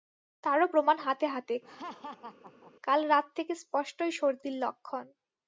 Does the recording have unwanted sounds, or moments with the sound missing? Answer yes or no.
yes